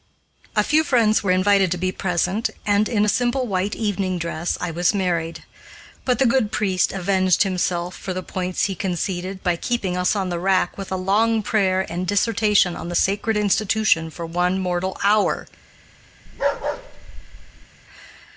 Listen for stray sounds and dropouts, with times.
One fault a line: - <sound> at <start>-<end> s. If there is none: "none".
- bark at 16.3-17.7 s